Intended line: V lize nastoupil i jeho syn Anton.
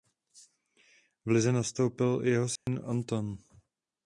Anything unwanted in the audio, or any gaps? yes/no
yes